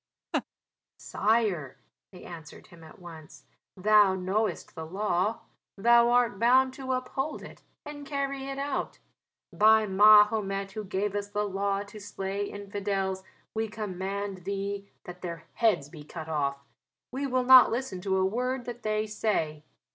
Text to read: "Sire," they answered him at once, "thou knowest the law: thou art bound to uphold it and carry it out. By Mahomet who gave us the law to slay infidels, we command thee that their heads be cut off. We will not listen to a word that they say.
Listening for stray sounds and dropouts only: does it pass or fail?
fail